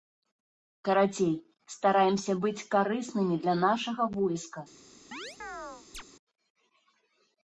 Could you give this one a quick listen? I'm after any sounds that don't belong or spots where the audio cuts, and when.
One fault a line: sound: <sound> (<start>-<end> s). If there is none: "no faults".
sound: chirp (5.1-6.0 s)